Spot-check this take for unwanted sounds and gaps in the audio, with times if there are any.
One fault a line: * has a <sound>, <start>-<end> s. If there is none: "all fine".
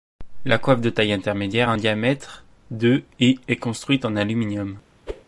* has a whoosh, 5.1-5.2 s